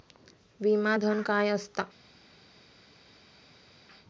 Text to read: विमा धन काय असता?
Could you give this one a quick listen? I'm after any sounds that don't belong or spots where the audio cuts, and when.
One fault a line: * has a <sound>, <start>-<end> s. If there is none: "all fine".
all fine